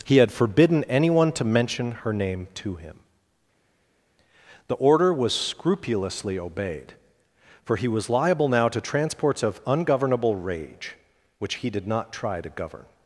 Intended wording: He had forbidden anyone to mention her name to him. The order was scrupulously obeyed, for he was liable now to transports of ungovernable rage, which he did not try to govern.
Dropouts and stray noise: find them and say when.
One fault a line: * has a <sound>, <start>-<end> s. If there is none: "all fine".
all fine